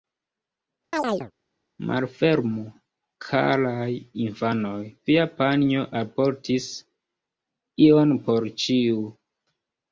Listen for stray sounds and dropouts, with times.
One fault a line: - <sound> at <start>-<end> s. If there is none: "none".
- chirp at 0.9-1.3 s